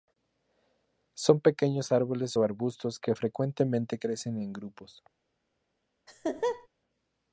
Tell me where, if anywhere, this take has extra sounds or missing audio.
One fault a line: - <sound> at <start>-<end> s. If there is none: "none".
- laugh at 6.1-6.7 s